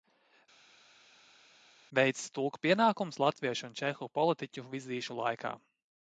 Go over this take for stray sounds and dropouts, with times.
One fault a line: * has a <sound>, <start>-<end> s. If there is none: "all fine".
all fine